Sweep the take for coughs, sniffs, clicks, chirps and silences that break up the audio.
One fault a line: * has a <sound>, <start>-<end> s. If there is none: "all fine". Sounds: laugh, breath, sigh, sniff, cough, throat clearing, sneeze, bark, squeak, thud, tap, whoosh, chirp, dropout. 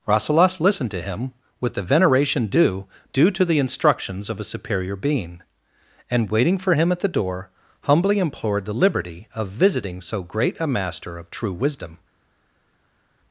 all fine